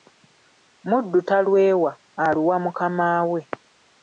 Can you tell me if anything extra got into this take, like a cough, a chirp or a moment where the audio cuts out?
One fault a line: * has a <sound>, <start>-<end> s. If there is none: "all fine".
all fine